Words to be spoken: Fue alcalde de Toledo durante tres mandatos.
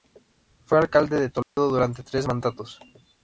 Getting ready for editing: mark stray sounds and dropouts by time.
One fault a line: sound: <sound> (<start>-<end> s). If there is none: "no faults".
sound: dropout (1.4-1.6 s)